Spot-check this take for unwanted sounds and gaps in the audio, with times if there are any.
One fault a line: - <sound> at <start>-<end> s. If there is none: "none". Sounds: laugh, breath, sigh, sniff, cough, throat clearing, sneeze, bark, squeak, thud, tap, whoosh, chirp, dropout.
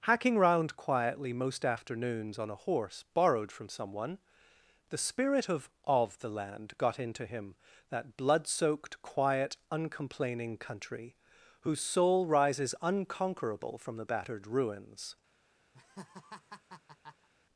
- laugh at 15.7-17.3 s